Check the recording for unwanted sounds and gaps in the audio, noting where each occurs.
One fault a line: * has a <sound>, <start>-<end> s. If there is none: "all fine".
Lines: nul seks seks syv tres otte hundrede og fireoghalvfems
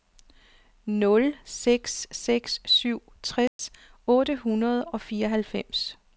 * has a dropout, 3.5-3.6 s